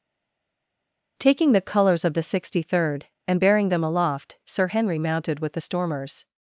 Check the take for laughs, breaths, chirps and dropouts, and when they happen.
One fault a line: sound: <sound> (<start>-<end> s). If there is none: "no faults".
no faults